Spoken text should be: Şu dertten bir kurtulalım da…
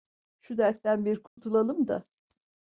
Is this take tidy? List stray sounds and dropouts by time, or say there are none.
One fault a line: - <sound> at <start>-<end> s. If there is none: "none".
- dropout at 1.3-1.4 s